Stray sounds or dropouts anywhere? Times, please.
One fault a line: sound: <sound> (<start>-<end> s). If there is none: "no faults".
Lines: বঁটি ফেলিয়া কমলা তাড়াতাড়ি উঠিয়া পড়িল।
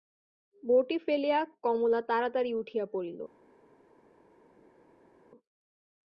no faults